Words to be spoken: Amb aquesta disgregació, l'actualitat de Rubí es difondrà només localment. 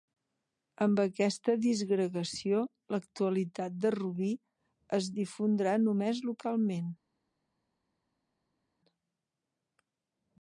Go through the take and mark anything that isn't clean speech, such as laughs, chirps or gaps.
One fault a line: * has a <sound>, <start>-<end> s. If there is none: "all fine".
all fine